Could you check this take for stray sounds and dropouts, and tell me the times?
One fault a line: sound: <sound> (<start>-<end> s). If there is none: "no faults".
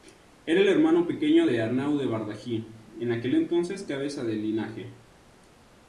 no faults